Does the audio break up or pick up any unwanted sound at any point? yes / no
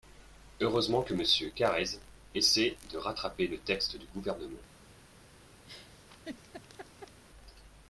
yes